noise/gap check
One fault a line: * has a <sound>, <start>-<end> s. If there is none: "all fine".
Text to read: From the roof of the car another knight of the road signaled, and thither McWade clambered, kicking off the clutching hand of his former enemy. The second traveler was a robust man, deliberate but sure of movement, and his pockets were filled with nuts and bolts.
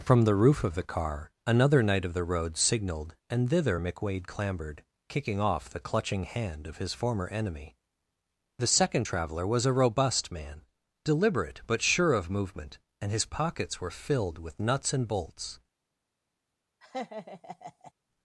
* has a laugh, 16.8-17.9 s